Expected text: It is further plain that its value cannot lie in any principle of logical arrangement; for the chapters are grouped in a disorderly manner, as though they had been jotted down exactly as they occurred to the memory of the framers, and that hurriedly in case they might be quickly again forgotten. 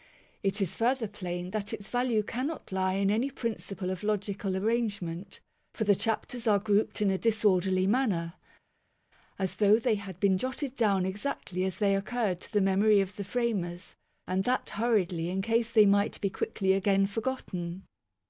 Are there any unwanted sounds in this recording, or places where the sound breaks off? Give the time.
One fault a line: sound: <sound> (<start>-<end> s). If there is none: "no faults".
no faults